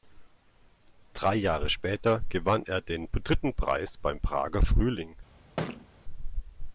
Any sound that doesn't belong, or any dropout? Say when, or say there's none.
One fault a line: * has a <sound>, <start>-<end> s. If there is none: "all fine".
* has a thud, 5.6-5.9 s